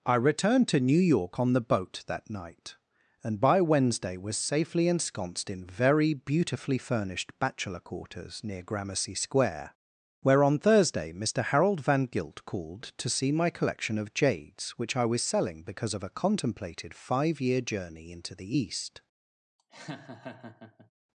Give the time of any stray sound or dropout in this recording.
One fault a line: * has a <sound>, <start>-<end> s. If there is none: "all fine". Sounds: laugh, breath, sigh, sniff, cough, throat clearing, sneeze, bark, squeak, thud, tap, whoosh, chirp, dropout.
* has a laugh, 19.6-20.9 s